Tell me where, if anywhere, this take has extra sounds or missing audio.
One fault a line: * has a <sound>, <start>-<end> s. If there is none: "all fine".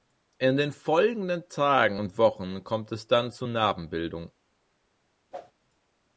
* has a whoosh, 5.3-5.5 s